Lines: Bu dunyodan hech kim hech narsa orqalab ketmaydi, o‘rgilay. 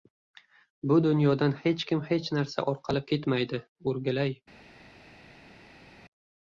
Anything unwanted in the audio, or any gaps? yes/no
no